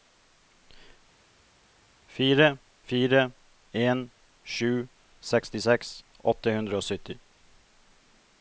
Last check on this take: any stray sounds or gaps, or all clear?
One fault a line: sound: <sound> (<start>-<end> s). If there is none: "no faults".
no faults